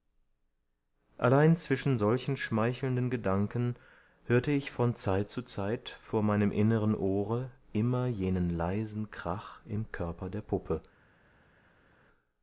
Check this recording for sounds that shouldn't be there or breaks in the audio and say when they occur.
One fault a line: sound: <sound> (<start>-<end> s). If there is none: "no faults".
no faults